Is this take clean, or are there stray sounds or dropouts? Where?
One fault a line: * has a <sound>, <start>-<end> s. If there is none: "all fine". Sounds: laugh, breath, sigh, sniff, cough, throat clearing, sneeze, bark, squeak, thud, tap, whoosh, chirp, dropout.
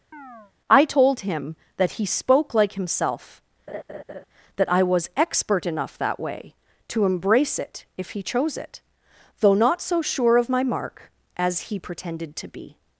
* has a chirp, 0.1-0.5 s
* has a laugh, 3.7-4.2 s